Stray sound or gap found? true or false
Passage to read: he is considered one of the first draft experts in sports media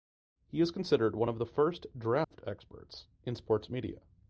true